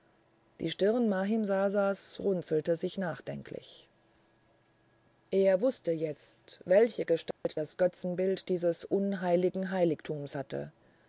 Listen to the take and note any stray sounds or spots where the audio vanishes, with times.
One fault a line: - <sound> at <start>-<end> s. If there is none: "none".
- dropout at 7.3-7.5 s